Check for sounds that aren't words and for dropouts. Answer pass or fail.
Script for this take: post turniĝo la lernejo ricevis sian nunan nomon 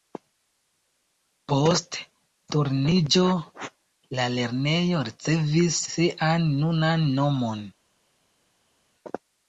pass